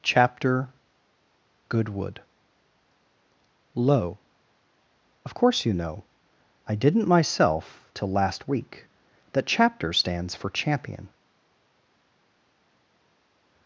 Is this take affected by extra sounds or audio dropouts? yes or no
no